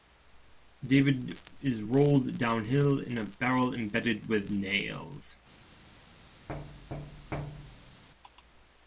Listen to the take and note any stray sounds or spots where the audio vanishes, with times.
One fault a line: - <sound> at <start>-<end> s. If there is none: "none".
- thud at 6.5-8.0 s